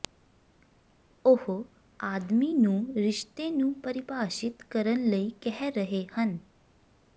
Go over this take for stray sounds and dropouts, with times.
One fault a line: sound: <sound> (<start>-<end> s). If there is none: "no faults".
no faults